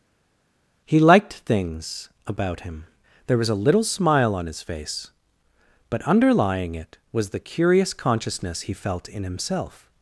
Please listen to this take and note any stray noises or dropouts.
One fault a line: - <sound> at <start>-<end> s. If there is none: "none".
none